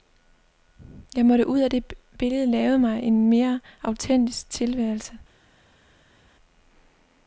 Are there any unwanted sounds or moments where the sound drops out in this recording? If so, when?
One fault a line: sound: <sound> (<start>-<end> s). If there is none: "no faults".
no faults